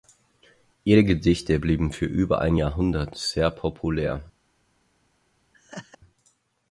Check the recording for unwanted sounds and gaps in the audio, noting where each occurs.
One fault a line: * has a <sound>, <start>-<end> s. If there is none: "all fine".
* has a laugh, 5.5-6.0 s